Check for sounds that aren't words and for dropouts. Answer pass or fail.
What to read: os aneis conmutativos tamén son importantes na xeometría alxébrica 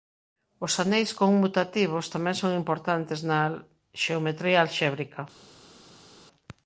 pass